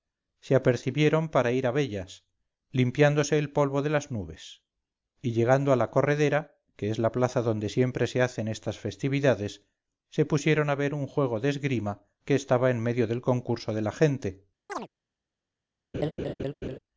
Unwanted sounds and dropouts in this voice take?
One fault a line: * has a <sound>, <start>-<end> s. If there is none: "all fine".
* has a chirp, 14.7-14.9 s
* has a laugh, 15.9-16.8 s